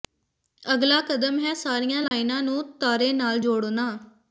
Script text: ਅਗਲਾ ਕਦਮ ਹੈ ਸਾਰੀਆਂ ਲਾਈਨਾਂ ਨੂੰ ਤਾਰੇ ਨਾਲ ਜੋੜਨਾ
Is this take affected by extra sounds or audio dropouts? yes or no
yes